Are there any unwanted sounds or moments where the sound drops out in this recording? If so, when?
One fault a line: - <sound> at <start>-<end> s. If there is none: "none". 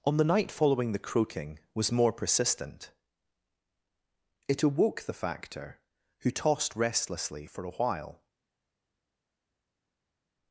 none